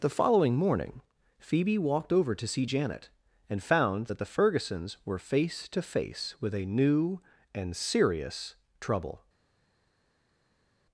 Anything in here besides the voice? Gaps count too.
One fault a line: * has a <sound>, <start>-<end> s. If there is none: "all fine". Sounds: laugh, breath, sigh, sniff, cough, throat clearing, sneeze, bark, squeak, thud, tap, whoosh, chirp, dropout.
all fine